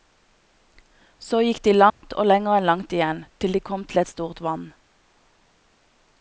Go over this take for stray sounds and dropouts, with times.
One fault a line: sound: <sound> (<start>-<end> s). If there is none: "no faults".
sound: dropout (1.9-2.0 s)